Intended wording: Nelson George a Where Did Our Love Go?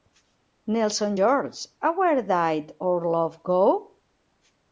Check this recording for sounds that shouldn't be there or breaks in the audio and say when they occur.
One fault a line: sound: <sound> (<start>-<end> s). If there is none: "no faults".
no faults